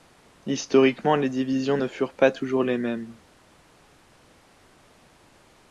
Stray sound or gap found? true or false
false